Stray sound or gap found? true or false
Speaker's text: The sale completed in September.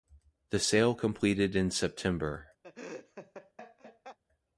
true